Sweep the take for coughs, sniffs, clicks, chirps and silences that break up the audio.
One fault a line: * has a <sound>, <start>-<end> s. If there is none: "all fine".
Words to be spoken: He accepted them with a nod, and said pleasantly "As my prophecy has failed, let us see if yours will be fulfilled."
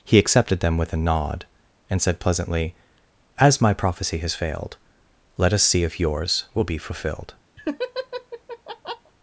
* has a laugh, 7.6-9.1 s